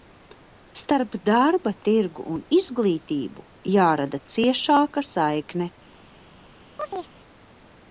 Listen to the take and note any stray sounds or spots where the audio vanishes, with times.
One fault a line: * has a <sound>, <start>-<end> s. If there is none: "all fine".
* has a chirp, 6.8-7.1 s